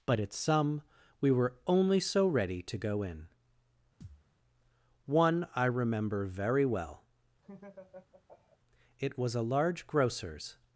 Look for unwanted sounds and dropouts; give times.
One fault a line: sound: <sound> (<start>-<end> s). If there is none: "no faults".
sound: thud (4.0-4.3 s)
sound: laugh (7.4-8.6 s)